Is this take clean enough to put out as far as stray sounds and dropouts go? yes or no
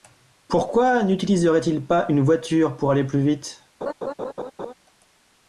no